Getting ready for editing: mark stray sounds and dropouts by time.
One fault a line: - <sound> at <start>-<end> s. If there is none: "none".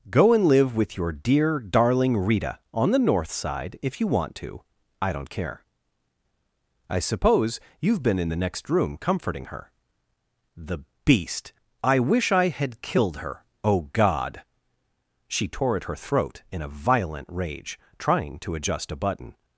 none